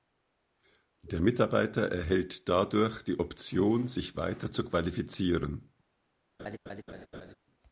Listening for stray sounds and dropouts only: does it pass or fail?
fail